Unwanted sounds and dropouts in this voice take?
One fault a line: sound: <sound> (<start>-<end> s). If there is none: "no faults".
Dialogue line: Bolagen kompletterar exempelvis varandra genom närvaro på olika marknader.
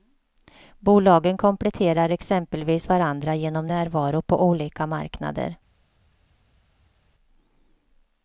no faults